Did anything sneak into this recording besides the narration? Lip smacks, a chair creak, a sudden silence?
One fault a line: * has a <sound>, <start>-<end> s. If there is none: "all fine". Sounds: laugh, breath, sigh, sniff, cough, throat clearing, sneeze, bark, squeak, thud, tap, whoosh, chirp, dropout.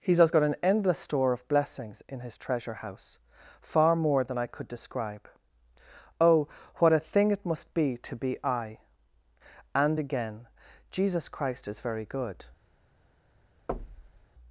* has a thud, 13.7-14.3 s